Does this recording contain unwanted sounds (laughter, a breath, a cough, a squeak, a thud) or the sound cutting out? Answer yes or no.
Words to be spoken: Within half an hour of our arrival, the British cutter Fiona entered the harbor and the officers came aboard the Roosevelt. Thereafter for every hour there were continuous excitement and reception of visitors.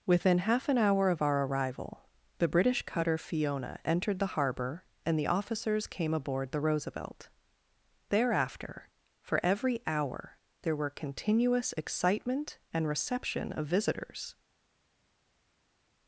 no